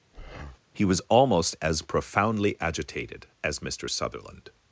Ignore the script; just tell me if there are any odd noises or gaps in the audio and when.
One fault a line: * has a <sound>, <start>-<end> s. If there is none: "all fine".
* has a breath, 0.1-0.6 s